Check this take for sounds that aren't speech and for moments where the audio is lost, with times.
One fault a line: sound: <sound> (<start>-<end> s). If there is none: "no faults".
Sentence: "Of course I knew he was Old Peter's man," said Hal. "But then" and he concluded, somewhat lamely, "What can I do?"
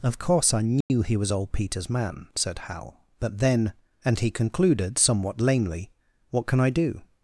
sound: dropout (0.8-0.9 s)